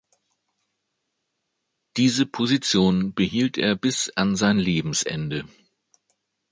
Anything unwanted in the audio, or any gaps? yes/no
no